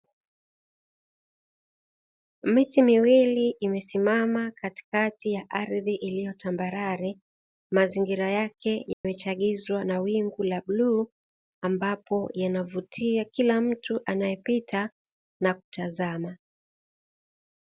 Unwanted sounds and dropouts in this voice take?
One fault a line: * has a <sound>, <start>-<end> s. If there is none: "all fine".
* has a dropout, 8.9-9.0 s